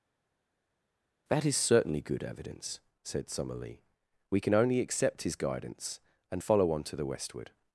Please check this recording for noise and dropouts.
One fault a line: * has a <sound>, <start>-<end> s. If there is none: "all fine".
all fine